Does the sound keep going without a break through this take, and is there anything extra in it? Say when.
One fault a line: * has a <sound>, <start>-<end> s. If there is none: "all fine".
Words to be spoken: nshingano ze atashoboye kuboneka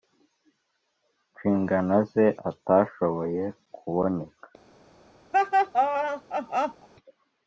* has a laugh, 5.3-6.9 s